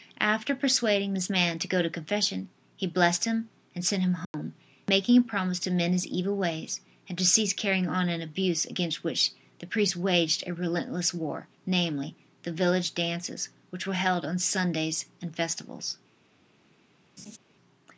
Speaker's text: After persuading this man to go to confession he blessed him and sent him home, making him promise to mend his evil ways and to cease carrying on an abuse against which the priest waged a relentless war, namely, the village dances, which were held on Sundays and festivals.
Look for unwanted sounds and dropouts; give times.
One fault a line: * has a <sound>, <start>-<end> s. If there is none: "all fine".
* has a dropout, 4.2-4.3 s
* has a laugh, 17.2-17.4 s